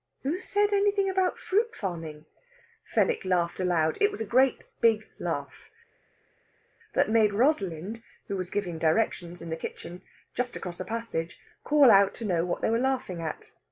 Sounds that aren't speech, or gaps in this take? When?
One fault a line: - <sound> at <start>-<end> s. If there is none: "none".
none